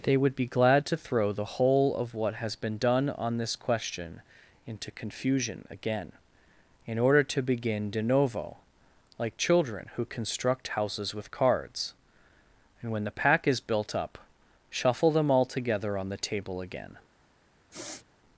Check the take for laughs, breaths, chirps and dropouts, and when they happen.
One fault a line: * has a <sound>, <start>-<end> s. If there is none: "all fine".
* has a sniff, 17.7-18.1 s